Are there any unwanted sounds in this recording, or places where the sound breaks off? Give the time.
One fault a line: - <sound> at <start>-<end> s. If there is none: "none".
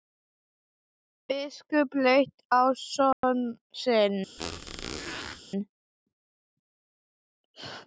- dropout at 3.1-3.2 s
- squeak at 4.4-5.4 s